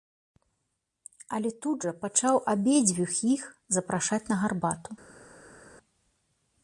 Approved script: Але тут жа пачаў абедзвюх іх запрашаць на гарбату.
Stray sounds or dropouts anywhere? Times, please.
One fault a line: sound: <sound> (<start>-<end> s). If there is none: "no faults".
no faults